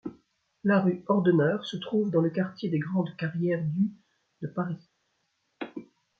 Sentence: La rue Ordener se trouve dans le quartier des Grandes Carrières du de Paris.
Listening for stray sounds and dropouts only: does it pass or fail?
pass